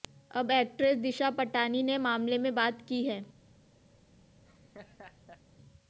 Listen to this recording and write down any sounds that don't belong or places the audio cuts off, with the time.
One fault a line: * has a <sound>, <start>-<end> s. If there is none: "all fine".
* has a laugh, 4.4-5.4 s